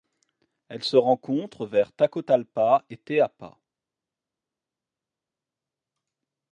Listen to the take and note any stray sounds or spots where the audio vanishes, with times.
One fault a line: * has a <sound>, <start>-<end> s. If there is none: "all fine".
all fine